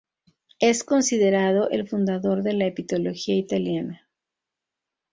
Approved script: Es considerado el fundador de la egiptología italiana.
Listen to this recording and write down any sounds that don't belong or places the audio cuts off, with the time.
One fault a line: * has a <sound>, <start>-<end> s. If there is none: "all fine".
all fine